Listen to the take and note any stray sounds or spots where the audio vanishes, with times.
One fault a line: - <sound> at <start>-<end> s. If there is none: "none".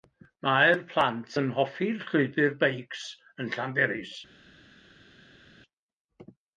none